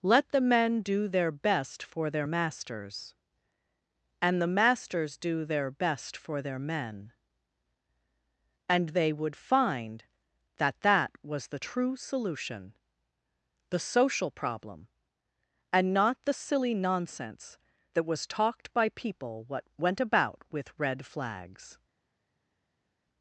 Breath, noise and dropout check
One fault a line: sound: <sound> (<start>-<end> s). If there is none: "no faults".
no faults